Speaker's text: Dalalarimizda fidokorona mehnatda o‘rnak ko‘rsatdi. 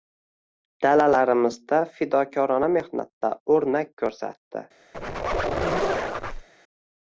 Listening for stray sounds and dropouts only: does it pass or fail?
fail